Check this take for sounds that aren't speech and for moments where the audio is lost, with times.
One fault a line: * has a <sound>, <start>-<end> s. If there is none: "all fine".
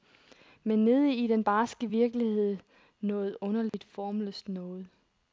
* has a dropout, 3.7-3.7 s